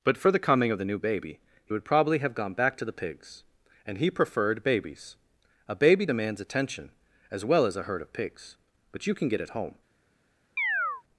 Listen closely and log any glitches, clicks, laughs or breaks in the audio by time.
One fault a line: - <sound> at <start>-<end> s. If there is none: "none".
- chirp at 10.6-11.0 s